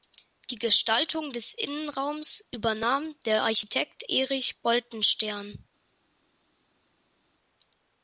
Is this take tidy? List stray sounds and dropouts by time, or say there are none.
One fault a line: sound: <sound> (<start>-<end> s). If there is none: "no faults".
no faults